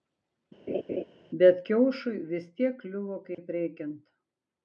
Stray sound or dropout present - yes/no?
yes